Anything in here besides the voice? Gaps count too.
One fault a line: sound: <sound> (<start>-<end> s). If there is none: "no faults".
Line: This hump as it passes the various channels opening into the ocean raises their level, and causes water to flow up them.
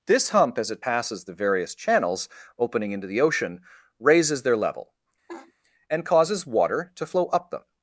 sound: laugh (5.3-5.5 s)